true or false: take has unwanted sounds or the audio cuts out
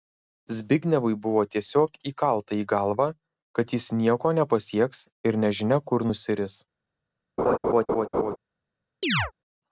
true